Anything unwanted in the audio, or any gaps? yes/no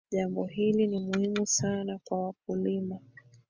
no